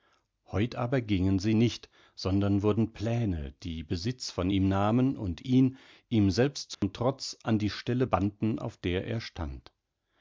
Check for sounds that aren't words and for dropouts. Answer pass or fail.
fail